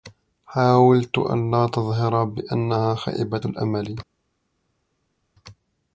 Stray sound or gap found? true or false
false